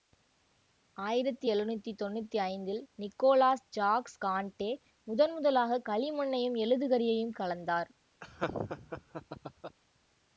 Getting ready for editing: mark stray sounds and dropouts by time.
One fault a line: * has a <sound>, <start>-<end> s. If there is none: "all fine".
* has a laugh, 8.2-9.8 s